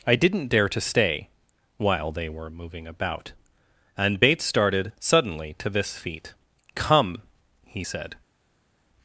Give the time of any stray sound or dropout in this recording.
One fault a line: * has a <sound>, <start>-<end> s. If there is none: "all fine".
all fine